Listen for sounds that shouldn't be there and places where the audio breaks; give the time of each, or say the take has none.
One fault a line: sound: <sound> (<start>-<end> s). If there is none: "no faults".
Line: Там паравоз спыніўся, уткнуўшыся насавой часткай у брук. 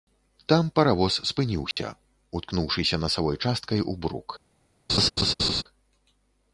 sound: dropout (1.7-1.8 s)
sound: laugh (4.9-5.6 s)